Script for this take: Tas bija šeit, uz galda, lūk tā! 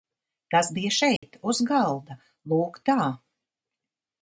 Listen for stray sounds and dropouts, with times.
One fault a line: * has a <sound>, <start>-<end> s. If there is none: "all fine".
* has a dropout, 1.2-1.2 s